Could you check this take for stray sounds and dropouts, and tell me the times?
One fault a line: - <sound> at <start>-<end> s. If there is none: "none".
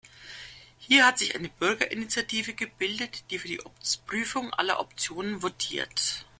none